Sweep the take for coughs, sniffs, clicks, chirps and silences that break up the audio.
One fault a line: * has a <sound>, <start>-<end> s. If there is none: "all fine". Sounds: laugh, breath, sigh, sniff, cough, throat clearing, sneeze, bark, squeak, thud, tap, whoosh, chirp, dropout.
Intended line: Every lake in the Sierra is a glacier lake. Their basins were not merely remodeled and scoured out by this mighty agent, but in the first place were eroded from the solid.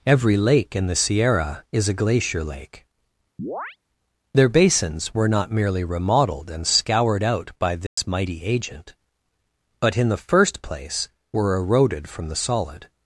* has a chirp, 3.4-3.8 s
* has a dropout, 7.9-8.0 s